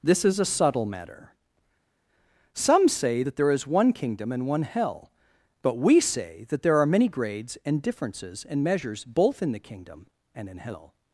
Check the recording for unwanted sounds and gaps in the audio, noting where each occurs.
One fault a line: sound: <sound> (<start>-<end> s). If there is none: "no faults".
no faults